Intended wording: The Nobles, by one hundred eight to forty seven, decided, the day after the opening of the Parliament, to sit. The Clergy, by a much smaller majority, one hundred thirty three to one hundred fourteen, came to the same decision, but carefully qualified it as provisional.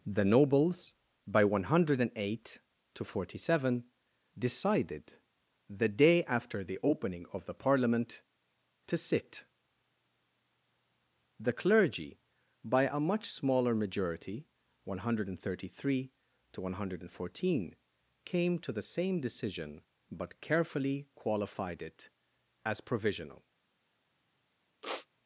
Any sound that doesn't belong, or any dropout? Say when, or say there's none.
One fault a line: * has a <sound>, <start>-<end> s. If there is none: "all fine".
* has a sniff, 24.8-25.1 s